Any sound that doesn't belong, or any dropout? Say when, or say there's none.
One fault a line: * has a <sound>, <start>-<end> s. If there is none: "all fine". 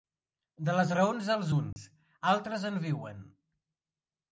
* has a dropout, 1.7-1.8 s